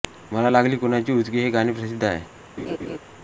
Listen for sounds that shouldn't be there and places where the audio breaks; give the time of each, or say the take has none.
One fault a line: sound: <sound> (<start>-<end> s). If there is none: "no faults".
sound: laugh (2.6-3.0 s)